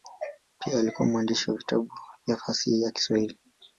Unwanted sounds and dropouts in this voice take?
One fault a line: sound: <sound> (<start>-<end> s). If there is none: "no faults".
no faults